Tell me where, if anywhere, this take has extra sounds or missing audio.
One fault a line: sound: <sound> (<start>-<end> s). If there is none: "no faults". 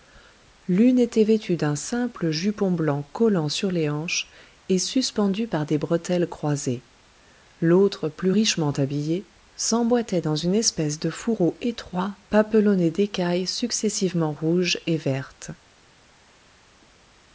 no faults